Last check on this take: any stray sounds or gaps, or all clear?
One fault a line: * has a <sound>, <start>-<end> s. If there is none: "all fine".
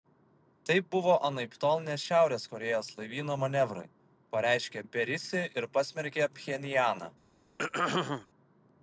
* has a throat clearing, 7.6-8.3 s